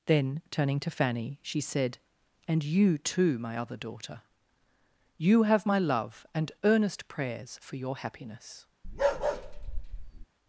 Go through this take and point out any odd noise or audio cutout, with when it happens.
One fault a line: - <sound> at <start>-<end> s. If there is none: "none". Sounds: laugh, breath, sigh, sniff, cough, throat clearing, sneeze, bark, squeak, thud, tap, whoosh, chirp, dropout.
- bark at 8.8-10.3 s